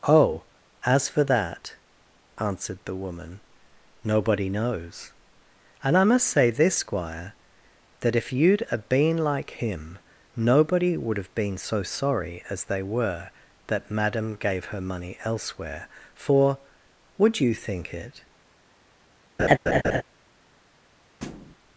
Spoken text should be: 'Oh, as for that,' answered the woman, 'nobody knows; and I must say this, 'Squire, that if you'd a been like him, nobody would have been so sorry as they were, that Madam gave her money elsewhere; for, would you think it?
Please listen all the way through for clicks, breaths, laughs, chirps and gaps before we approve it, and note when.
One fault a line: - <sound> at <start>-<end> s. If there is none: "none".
- laugh at 19.4-20.0 s
- thud at 21.2-21.5 s